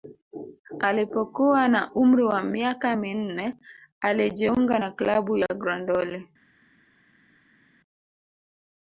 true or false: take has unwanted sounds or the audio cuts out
false